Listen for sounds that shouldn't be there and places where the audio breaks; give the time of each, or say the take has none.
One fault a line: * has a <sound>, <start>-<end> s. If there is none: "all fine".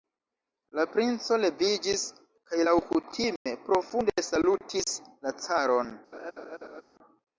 * has a dropout, 3.4-3.5 s
* has a laugh, 6.1-6.8 s